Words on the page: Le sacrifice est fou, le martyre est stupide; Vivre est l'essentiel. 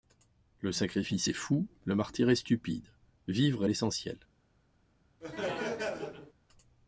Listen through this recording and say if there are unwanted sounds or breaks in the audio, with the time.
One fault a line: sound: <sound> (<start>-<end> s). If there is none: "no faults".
sound: laugh (5.2-6.3 s)